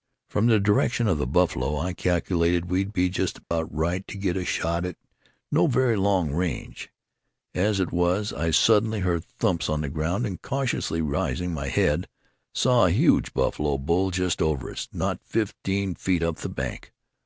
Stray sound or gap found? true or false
true